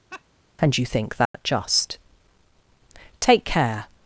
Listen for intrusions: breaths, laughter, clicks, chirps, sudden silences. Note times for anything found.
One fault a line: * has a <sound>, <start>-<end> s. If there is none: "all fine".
* has a laugh, 0.1-0.2 s
* has a dropout, 1.3-1.3 s